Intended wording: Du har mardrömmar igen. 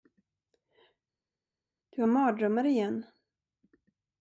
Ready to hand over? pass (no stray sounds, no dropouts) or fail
pass